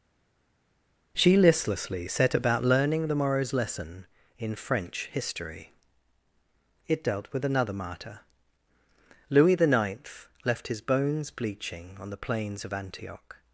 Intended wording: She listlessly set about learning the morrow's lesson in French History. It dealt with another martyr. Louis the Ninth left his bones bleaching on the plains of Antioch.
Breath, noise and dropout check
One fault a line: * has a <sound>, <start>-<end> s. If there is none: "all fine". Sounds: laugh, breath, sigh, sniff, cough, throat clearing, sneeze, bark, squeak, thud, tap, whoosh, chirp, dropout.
all fine